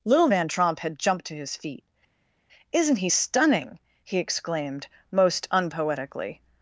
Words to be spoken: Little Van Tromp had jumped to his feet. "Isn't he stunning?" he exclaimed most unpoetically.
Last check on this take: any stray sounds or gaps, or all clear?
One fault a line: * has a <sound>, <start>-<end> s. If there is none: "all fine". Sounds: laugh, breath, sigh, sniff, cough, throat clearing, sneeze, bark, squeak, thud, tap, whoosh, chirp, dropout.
all fine